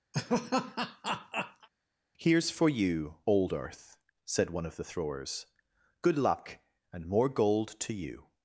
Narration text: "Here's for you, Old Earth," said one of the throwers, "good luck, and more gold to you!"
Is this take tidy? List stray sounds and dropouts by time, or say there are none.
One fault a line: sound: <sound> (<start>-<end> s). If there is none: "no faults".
sound: laugh (0.1-1.7 s)